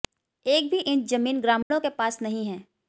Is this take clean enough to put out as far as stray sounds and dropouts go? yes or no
no